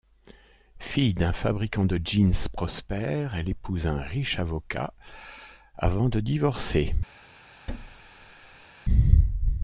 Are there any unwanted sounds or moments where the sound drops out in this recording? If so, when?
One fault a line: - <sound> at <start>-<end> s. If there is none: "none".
- thud at 7.7-8.7 s